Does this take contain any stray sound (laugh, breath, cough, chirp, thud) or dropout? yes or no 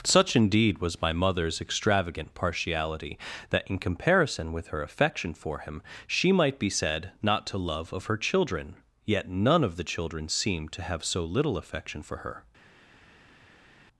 no